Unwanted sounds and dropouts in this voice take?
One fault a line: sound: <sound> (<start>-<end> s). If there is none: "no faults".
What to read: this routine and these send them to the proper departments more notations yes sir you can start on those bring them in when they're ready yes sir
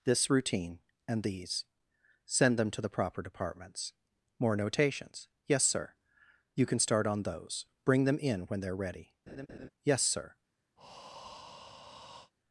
sound: laugh (9.3-9.7 s)
sound: breath (10.8-12.3 s)